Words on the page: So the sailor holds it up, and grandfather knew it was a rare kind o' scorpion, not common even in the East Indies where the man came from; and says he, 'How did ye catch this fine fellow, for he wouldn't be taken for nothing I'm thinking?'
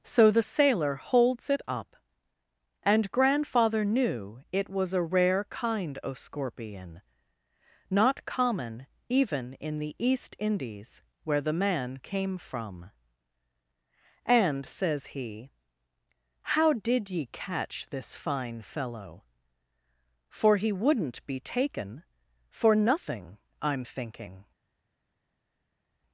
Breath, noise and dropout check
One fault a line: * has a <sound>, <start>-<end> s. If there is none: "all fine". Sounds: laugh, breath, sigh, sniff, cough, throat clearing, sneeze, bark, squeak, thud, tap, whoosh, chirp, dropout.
all fine